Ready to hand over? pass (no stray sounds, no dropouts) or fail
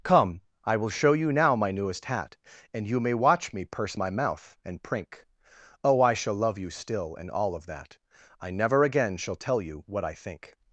pass